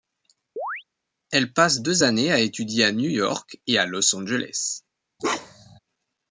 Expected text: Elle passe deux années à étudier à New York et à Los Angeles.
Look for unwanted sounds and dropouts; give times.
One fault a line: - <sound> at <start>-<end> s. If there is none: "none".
- chirp at 0.6-0.8 s
- bark at 5.2-5.8 s